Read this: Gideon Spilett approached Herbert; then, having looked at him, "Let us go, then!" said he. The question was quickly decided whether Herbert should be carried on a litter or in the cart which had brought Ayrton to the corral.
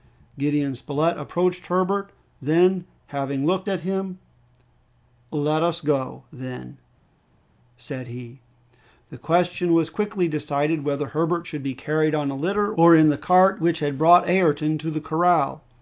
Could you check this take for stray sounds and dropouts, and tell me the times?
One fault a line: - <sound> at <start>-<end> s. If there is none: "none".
none